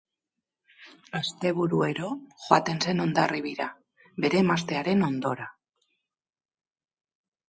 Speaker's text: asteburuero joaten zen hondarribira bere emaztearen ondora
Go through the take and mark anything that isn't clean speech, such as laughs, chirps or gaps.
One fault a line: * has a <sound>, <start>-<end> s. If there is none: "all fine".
all fine